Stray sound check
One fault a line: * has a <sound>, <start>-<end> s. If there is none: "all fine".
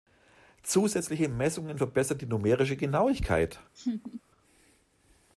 * has a laugh, 3.8-4.2 s